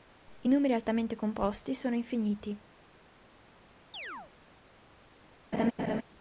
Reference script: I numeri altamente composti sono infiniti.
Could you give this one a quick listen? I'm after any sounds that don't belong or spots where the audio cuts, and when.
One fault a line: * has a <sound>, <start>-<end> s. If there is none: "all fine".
* has a chirp, 3.9-4.3 s
* has a laugh, 5.5-6.0 s